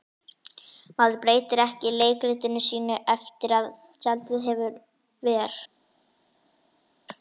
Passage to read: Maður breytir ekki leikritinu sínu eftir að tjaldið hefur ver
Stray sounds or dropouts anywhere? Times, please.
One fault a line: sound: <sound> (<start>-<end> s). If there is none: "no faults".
no faults